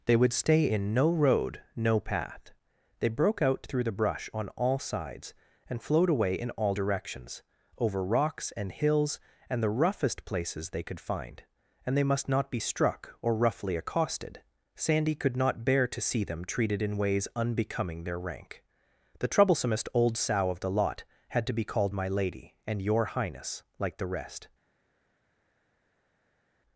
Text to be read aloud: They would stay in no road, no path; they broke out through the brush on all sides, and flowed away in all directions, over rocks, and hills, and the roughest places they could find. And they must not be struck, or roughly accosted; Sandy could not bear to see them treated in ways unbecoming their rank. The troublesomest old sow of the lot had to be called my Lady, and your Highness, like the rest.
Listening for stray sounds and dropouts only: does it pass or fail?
pass